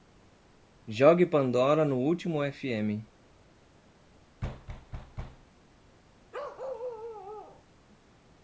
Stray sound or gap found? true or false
true